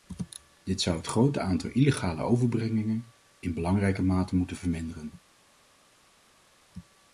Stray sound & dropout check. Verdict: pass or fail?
pass